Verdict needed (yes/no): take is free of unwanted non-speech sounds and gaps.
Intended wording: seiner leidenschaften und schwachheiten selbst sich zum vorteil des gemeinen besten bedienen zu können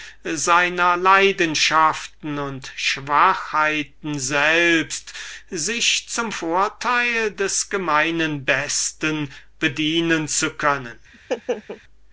no